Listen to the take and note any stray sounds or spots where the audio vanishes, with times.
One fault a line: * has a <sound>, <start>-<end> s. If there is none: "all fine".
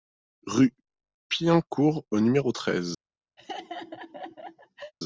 * has a laugh, 3.4-4.9 s